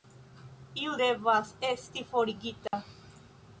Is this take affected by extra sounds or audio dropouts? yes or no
yes